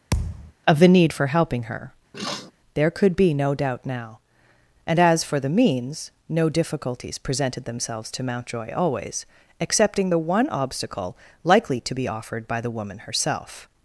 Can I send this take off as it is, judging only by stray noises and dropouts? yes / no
no